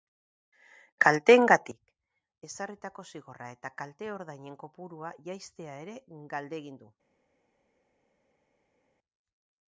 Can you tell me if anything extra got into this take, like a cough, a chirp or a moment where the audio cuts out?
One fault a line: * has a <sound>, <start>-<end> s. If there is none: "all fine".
all fine